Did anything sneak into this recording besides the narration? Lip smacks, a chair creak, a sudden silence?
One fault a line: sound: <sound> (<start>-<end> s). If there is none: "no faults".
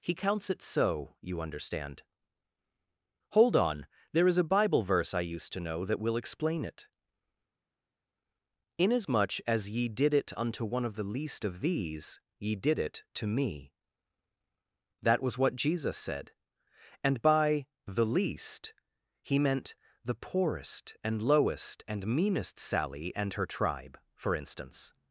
no faults